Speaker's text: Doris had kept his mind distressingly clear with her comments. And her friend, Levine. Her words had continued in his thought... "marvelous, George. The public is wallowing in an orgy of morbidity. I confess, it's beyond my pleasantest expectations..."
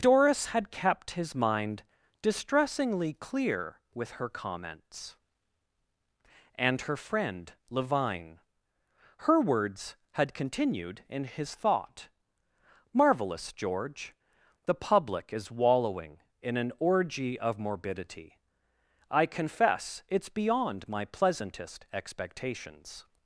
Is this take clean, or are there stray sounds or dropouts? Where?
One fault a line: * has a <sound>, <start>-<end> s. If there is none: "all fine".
all fine